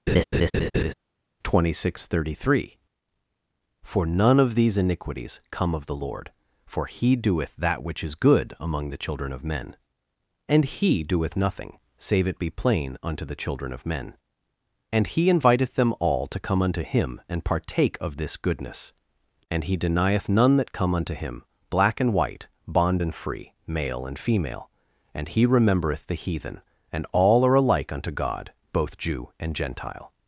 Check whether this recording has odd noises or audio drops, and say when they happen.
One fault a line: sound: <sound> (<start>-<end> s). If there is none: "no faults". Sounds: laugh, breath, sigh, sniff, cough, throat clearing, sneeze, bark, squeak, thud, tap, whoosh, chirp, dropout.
sound: laugh (0.1-0.9 s)